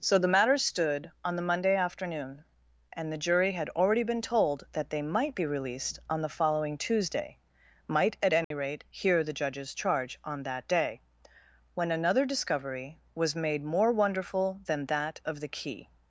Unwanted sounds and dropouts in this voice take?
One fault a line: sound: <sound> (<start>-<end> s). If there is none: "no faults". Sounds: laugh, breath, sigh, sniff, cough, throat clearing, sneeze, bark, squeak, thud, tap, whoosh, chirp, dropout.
sound: dropout (8.4-8.5 s)